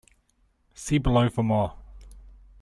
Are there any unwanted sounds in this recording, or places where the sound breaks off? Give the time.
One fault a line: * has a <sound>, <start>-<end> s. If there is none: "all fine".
all fine